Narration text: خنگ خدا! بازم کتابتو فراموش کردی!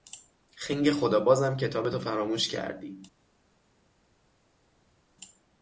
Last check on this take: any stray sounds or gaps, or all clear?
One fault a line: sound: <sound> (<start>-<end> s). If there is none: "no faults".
no faults